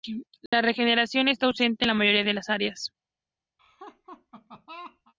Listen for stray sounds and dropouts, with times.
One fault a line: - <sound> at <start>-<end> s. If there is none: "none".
- dropout at 0.5-0.5 s
- laugh at 3.6-5.1 s